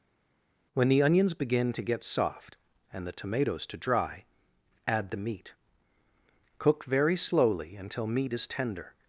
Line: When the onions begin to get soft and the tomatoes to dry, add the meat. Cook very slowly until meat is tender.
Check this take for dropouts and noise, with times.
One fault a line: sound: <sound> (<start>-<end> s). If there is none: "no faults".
no faults